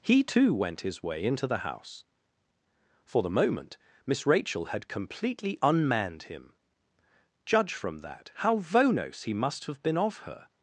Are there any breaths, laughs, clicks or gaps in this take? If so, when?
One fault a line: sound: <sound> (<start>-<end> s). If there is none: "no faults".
no faults